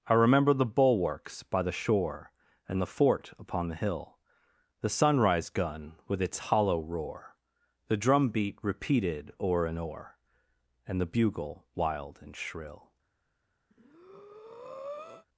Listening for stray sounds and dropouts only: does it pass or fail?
fail